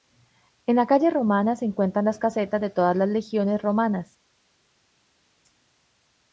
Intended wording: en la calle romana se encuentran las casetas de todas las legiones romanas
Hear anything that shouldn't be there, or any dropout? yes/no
no